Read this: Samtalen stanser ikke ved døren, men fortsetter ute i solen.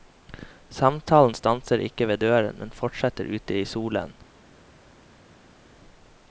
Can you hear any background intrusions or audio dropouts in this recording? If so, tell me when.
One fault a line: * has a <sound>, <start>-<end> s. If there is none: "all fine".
all fine